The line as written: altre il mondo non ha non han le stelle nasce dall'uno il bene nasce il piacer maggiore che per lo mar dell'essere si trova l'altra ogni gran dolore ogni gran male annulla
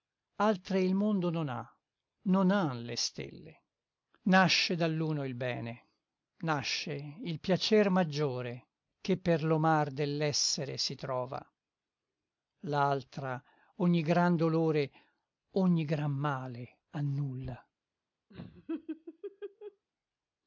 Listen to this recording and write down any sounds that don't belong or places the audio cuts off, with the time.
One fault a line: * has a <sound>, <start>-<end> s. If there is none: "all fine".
* has a laugh, 18.3-19.8 s